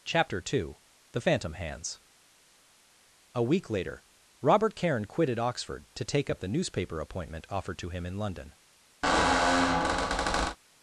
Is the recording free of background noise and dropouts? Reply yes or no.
no